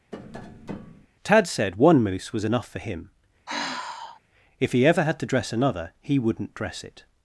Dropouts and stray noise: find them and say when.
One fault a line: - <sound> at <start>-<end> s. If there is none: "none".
- tap at 0.1-1.1 s
- sigh at 3.5-4.2 s